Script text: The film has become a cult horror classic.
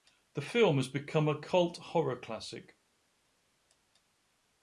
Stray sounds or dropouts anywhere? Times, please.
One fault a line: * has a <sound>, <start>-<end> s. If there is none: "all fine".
all fine